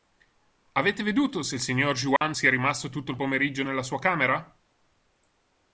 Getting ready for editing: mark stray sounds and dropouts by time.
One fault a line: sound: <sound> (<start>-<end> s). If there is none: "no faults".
sound: dropout (2.2-2.2 s)